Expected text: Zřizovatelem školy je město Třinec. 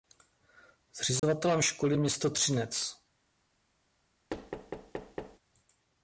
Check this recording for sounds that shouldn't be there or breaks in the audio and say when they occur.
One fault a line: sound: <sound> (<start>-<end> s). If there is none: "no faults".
sound: dropout (1.2-1.2 s)
sound: thud (4.3-5.4 s)